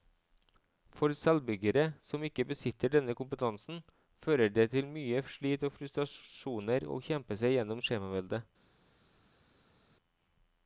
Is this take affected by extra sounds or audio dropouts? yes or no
no